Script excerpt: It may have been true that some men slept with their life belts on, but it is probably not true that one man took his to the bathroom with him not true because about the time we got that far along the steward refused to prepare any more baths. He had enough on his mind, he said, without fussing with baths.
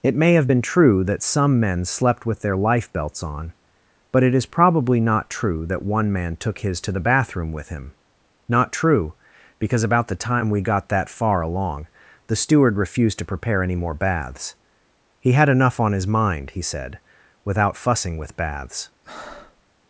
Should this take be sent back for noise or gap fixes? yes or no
yes